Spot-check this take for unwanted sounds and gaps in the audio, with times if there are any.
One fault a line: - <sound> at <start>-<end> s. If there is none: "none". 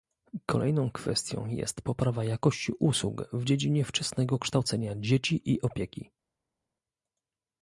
none